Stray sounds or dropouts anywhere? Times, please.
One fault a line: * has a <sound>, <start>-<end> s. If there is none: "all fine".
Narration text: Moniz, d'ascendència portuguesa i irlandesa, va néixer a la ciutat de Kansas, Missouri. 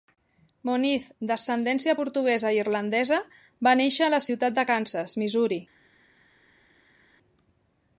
all fine